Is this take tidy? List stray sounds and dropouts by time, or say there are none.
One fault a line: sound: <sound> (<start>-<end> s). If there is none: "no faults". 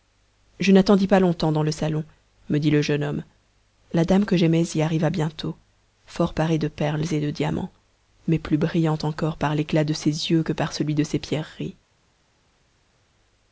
no faults